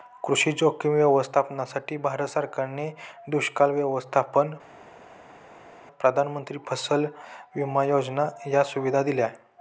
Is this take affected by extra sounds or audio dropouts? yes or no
no